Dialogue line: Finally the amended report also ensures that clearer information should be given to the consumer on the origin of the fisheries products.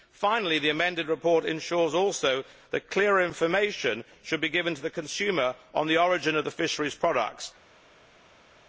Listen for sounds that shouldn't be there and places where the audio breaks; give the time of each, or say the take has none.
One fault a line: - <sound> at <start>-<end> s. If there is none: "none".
none